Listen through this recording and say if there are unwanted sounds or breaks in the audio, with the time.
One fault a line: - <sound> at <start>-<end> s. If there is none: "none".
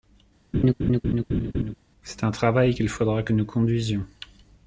- laugh at 0.5-1.8 s